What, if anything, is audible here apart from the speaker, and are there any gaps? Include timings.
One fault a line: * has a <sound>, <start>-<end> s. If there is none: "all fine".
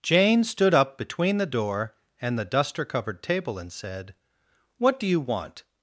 all fine